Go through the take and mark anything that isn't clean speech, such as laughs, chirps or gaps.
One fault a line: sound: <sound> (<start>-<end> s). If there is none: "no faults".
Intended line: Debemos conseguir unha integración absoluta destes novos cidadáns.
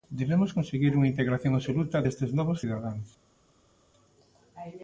no faults